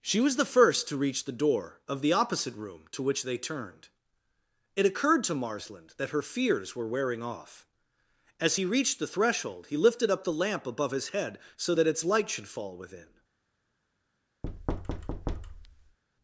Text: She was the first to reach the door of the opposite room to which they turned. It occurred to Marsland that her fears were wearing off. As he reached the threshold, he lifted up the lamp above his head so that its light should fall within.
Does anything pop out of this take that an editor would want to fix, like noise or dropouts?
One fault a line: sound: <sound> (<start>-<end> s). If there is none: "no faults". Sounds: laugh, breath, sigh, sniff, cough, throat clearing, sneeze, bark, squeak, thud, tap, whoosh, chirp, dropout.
sound: thud (14.4-16.0 s)